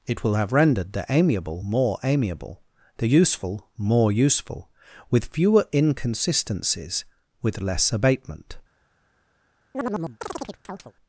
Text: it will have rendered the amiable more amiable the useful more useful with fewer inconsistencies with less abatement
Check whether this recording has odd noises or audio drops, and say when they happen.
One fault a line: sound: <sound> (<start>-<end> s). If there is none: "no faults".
sound: chirp (9.7-10.9 s)